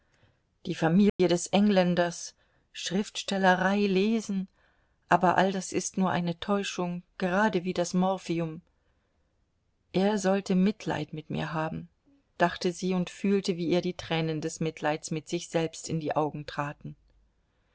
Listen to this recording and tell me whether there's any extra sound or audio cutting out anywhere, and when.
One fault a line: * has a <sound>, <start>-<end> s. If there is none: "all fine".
* has a dropout, 1.1-1.2 s